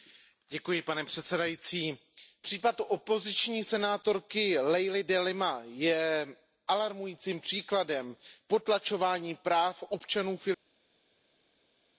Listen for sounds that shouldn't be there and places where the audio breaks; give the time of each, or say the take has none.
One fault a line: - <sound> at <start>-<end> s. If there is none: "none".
none